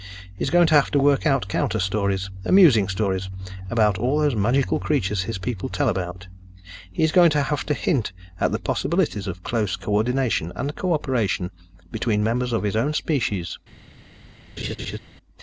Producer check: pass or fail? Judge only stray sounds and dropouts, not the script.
fail